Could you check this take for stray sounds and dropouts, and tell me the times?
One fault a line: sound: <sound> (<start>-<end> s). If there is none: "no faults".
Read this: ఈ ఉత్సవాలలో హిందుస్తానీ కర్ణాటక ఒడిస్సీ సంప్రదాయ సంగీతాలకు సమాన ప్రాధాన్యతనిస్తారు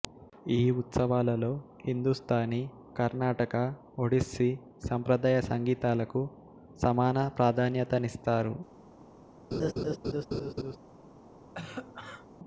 sound: laugh (9.5-10.8 s)
sound: cough (11.5-12.3 s)